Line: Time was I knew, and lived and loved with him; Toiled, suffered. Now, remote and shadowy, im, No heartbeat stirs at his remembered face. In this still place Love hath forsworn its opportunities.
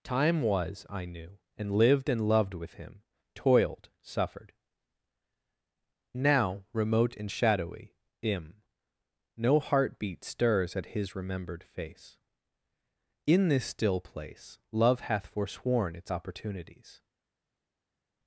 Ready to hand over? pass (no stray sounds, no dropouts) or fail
pass